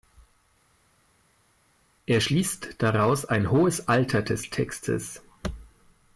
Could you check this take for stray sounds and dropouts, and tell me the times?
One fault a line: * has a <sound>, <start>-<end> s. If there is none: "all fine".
all fine